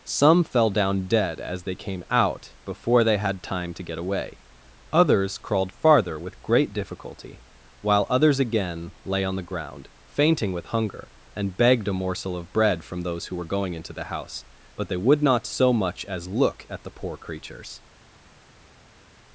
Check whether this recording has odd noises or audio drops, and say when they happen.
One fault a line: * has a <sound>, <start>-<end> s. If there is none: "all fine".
all fine